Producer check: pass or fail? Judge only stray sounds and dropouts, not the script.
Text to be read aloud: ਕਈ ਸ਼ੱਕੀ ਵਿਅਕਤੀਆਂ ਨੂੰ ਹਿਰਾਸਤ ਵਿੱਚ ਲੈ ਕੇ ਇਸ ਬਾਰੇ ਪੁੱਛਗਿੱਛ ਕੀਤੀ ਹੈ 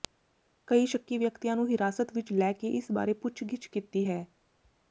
pass